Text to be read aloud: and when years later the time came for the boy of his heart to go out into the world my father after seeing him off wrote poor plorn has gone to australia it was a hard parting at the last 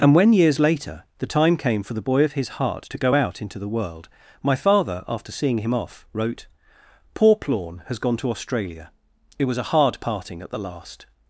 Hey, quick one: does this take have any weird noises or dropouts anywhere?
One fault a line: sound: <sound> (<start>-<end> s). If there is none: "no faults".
no faults